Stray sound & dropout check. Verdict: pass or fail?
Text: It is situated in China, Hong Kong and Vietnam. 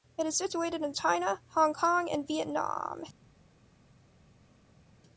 pass